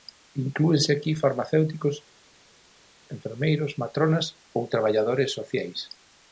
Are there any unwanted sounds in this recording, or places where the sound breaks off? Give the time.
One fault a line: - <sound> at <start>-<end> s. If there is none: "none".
none